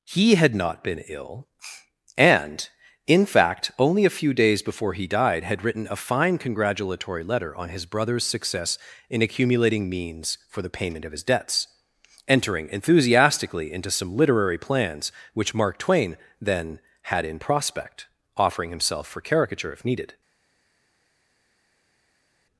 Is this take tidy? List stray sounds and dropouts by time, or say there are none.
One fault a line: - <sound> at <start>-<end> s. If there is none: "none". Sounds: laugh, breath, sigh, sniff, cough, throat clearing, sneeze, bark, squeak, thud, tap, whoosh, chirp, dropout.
none